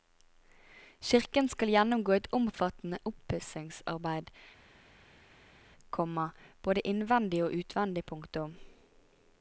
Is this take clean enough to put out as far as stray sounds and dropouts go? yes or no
yes